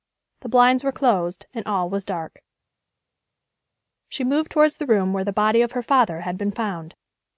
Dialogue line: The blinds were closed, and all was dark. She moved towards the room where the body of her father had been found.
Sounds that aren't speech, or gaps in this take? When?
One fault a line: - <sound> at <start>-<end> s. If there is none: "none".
none